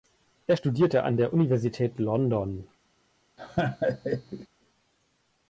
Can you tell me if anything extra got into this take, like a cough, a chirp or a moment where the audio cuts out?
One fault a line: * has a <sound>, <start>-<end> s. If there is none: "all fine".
* has a laugh, 3.4-4.5 s